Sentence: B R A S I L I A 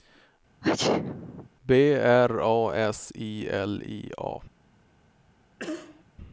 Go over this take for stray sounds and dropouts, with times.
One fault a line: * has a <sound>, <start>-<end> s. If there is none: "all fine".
* has a sneeze, 0.6-1.5 s
* has a cough, 5.6-6.0 s